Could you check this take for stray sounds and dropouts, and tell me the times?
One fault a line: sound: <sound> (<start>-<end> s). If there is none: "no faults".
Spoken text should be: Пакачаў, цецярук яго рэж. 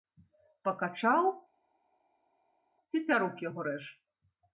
no faults